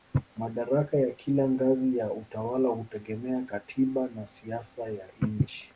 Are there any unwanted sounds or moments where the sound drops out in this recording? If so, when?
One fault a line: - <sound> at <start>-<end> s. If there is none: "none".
none